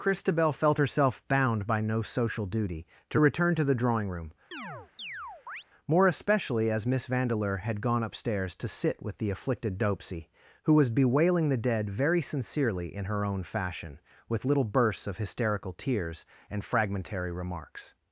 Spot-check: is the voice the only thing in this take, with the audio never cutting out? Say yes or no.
no